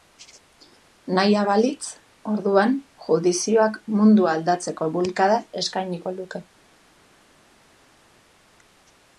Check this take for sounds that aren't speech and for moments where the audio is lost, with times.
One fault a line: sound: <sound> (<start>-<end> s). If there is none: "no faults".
no faults